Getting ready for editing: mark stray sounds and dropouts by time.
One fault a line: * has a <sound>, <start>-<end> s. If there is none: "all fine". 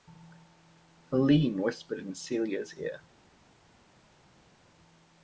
all fine